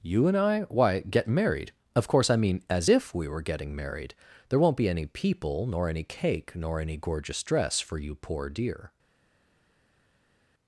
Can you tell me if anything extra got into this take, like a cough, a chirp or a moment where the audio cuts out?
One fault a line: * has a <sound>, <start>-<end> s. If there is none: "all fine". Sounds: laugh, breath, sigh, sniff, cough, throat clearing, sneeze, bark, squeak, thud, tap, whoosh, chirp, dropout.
all fine